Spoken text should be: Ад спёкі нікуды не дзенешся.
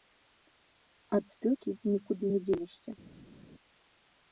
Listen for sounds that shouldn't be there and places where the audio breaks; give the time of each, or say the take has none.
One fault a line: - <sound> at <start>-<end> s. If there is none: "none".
none